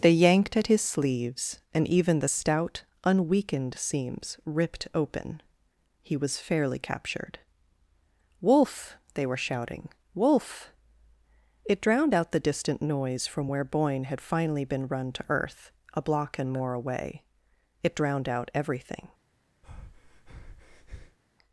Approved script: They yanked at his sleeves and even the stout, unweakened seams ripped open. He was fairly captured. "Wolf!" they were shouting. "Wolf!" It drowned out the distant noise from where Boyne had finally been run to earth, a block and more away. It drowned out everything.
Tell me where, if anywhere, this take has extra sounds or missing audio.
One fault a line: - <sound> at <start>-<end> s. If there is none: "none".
- breath at 19.6-21.2 s